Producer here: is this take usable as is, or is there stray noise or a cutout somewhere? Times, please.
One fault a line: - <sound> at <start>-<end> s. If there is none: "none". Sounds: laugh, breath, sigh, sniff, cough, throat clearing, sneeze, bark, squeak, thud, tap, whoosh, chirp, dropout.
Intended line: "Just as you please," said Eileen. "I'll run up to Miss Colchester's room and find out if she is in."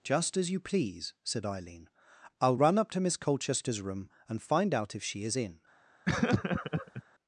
- laugh at 6.1-7.0 s